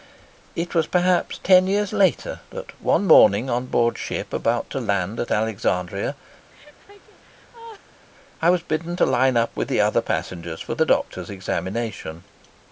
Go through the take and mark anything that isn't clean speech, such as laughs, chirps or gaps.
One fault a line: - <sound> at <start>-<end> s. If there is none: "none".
- laugh at 6.5-8.0 s